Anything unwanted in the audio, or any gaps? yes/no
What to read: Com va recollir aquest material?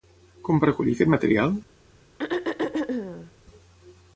yes